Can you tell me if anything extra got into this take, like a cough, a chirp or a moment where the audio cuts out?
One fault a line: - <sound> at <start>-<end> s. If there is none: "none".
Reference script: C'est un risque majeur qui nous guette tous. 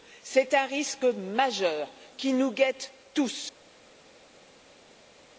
none